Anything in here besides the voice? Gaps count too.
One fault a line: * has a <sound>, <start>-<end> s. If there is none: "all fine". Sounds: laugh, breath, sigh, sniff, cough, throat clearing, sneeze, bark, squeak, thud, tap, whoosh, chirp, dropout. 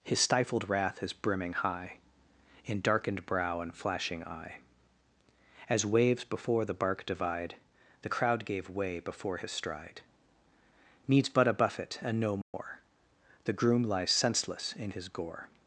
* has a dropout, 12.4-12.5 s